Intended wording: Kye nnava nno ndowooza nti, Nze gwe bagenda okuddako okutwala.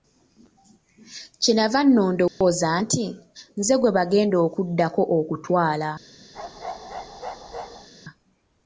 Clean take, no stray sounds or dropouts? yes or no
no